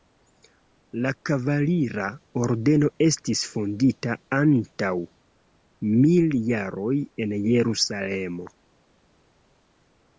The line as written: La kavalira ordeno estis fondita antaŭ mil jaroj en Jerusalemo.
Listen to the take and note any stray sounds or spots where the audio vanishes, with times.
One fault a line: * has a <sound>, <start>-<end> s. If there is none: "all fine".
all fine